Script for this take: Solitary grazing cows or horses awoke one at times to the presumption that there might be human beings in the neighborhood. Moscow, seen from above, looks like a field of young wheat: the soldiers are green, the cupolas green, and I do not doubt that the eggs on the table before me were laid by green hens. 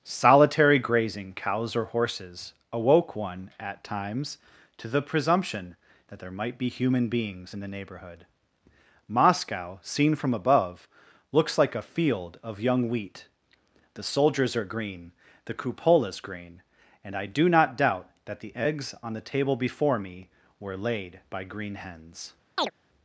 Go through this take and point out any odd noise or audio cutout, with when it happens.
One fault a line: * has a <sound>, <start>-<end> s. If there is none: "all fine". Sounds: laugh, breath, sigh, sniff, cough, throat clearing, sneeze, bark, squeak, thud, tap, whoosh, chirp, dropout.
* has a chirp, 22.6-22.7 s